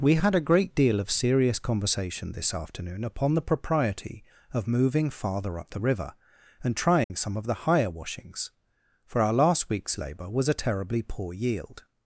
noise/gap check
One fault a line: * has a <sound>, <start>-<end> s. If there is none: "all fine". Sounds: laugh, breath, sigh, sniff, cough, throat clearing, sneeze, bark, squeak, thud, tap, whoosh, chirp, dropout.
* has a dropout, 7.0-7.1 s